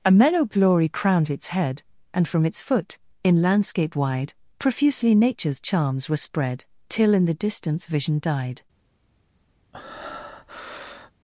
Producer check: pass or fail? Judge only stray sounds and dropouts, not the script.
fail